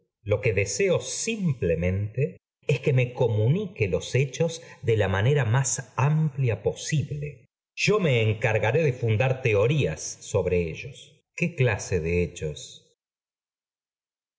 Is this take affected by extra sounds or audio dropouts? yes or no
no